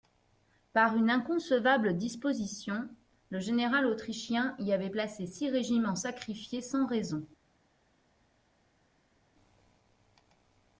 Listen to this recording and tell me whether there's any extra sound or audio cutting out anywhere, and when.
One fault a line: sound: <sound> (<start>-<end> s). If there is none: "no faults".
no faults